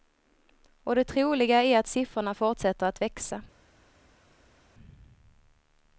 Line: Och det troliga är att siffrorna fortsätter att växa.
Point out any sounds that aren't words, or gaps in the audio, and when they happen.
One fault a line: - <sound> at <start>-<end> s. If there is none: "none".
none